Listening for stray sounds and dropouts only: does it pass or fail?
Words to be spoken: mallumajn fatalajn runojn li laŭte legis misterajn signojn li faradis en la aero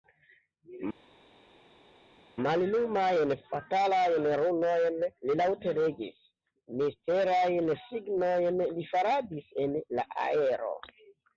pass